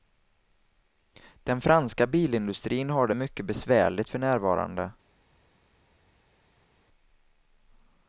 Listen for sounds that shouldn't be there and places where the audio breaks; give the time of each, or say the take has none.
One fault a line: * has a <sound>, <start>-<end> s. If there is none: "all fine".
all fine